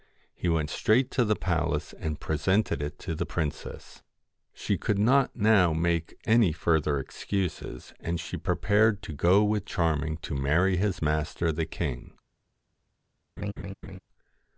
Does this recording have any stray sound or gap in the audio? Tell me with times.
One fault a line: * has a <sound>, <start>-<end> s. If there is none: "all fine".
* has a laugh, 13.4-14.0 s